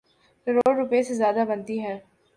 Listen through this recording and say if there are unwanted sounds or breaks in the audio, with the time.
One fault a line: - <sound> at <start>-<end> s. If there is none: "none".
- dropout at 0.6-0.7 s